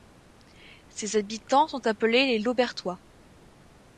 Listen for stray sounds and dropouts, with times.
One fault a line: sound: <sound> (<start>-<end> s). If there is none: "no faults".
no faults